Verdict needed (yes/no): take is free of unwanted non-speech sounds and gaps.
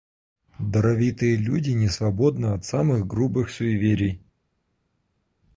yes